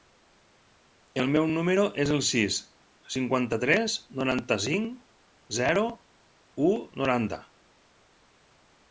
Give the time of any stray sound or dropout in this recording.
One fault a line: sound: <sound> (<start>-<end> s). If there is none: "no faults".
no faults